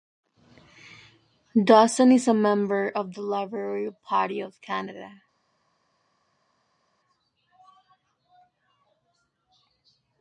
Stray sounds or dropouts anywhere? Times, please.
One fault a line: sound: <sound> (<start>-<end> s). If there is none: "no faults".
no faults